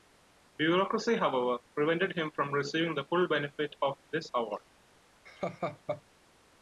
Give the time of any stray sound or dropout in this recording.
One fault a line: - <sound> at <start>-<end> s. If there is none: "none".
- laugh at 5.3-6.0 s